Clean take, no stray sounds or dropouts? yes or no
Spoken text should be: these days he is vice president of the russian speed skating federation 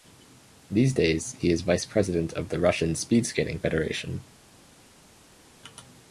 yes